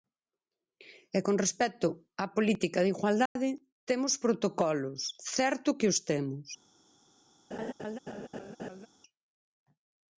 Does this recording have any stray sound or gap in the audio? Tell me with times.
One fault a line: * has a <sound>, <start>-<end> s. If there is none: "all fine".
* has a dropout, 3.3-3.4 s
* has a laugh, 7.5-8.9 s